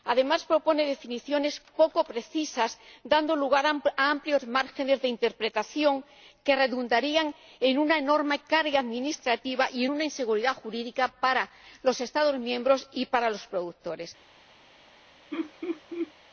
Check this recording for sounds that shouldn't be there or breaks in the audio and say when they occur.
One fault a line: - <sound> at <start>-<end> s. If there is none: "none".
- laugh at 15.3-16.1 s